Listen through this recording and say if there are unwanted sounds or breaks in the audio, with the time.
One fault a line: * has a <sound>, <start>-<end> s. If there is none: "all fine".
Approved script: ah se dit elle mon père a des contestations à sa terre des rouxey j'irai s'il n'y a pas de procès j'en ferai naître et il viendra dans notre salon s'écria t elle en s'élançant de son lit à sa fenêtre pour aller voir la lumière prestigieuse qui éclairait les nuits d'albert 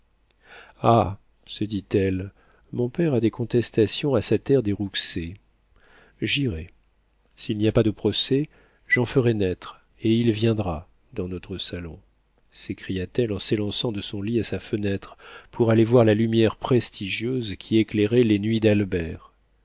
all fine